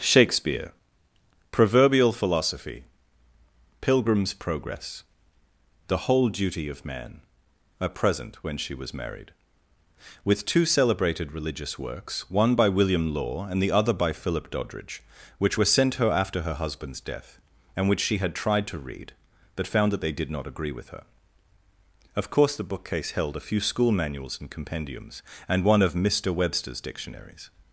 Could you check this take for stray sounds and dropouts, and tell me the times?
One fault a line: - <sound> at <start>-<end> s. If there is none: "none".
none